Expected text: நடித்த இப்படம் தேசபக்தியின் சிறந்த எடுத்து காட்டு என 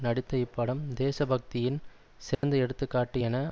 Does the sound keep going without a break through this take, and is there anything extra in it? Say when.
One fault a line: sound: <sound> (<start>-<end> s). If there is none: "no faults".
sound: dropout (2.3-2.4 s)